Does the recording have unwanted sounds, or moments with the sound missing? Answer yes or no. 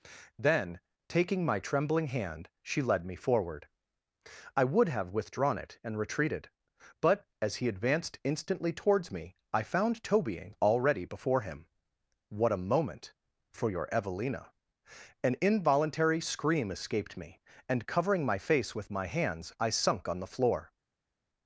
no